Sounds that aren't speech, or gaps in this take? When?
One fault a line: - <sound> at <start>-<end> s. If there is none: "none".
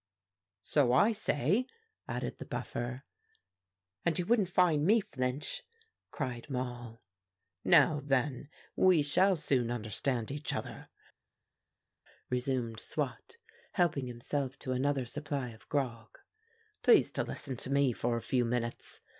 none